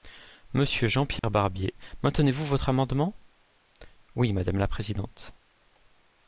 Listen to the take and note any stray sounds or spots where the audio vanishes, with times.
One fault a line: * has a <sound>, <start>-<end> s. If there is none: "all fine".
* has a dropout, 1.2-1.2 s